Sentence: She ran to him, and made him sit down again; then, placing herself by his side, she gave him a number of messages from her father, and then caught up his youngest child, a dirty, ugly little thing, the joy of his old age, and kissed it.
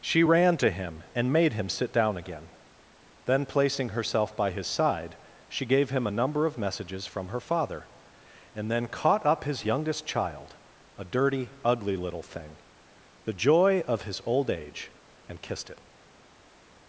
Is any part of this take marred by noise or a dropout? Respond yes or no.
no